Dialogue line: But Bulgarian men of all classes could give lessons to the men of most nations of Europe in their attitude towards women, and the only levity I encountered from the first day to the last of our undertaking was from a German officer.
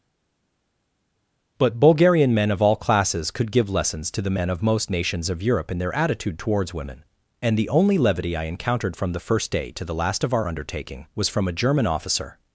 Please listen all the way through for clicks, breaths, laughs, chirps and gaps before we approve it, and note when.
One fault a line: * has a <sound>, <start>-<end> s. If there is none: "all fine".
all fine